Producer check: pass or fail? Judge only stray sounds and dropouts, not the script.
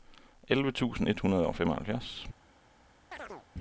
fail